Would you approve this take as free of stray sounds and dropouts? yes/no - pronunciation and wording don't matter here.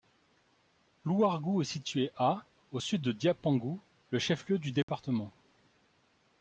no